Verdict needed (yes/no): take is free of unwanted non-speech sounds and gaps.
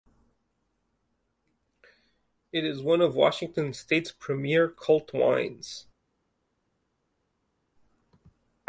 yes